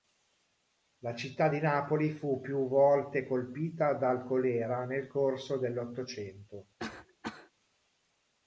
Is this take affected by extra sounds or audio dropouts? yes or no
yes